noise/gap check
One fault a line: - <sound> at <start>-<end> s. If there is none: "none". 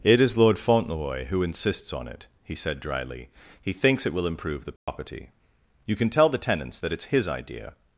- dropout at 4.8-4.9 s